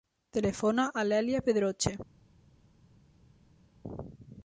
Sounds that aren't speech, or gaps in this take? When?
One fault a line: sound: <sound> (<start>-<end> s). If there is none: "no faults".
no faults